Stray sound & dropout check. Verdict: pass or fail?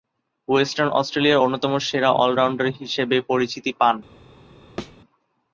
fail